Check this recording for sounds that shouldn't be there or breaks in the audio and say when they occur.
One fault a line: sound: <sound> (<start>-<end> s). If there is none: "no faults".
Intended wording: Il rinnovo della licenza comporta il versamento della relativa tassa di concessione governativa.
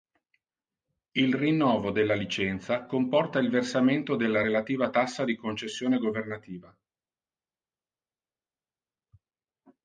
no faults